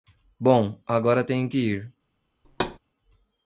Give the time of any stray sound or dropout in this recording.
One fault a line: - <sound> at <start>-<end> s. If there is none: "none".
- thud at 2.4-2.8 s